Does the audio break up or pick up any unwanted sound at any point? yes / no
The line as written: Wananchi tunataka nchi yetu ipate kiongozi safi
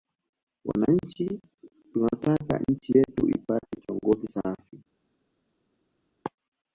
no